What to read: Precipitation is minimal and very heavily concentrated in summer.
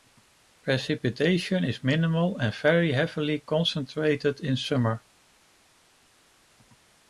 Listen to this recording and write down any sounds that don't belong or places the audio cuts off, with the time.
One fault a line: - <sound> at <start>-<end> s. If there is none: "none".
none